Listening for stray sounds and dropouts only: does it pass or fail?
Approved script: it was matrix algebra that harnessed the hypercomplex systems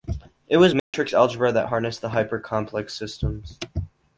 fail